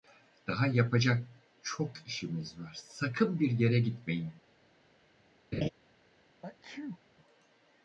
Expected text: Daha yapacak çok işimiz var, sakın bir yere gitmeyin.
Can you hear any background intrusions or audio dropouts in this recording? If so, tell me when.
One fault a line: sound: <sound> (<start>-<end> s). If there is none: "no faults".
sound: laugh (5.5-5.7 s)
sound: sneeze (6.4-7.0 s)